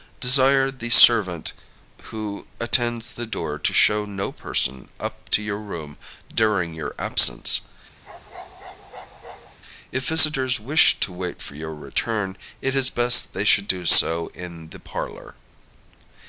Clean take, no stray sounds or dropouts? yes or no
no